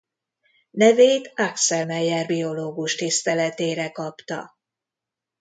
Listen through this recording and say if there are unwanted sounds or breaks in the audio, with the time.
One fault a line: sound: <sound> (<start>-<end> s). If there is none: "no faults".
no faults